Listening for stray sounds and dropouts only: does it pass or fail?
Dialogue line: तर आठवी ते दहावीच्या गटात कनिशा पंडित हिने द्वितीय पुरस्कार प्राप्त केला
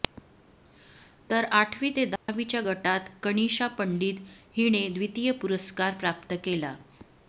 fail